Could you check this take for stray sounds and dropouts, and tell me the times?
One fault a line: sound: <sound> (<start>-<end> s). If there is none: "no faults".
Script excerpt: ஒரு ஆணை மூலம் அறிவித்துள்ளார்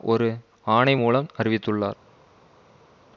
no faults